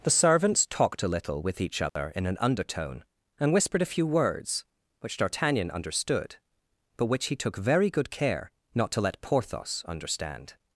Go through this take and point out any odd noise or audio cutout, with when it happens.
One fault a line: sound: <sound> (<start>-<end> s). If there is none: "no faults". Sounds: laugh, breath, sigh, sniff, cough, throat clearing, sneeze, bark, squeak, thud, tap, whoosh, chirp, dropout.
sound: dropout (1.9-2.0 s)